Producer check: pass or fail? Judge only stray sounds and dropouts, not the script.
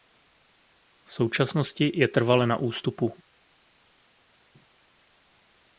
pass